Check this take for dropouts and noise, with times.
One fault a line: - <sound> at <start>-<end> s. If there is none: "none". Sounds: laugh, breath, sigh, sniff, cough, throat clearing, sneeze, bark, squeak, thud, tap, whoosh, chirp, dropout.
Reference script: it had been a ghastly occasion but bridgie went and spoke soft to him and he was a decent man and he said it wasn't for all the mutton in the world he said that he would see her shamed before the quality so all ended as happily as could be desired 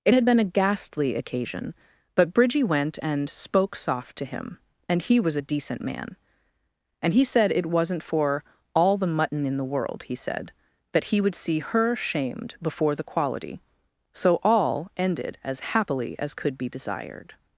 none